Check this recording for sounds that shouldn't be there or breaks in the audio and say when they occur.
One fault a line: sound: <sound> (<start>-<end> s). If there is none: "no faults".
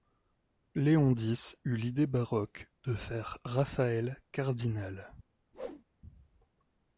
sound: whoosh (5.5-5.8 s)